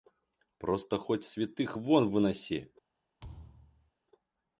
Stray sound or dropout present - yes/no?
yes